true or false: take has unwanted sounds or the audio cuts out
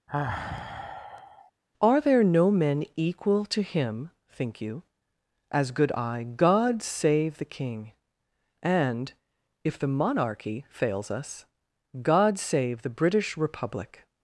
true